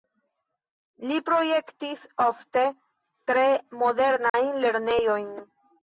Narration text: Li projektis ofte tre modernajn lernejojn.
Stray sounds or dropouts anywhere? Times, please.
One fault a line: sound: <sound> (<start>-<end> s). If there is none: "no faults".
sound: dropout (4.3-4.3 s)